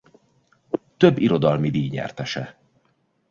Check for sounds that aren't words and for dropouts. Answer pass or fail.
pass